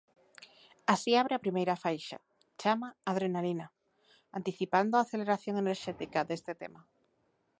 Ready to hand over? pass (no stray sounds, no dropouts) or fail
pass